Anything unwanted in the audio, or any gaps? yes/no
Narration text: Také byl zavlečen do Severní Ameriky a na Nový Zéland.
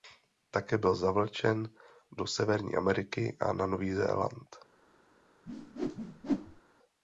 yes